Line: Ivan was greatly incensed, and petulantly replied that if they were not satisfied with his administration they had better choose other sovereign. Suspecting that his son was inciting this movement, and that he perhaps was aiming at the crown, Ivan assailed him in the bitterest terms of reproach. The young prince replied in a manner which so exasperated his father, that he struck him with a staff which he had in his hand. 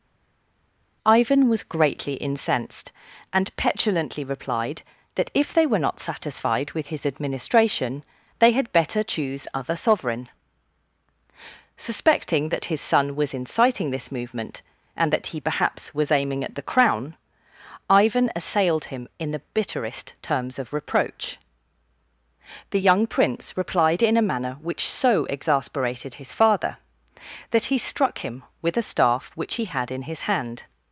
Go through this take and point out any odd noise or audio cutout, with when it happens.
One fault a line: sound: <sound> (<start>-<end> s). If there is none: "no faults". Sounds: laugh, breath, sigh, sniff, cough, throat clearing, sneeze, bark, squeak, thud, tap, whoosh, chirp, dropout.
no faults